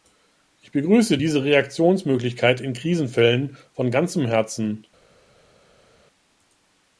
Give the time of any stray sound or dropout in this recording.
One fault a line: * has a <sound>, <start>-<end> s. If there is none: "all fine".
all fine